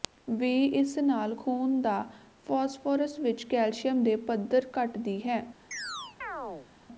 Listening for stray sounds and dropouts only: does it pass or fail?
fail